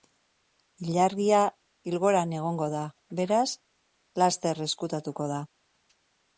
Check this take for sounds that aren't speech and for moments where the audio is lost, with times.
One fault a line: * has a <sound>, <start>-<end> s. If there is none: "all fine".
all fine